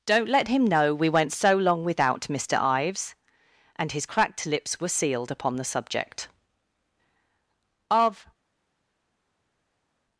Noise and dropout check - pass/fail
pass